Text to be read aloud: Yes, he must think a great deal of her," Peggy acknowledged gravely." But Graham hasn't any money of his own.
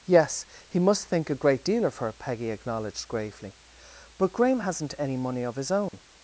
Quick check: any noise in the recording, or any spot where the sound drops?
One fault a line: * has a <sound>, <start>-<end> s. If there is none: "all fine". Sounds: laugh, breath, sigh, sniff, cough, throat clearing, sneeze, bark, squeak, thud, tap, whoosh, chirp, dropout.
* has a dropout, 5.9-5.9 s